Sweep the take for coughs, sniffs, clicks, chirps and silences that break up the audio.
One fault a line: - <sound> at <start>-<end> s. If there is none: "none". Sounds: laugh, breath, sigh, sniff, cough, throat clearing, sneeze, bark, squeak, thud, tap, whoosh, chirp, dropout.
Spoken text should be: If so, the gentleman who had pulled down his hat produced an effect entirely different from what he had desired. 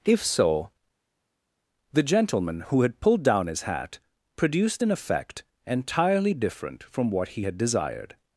none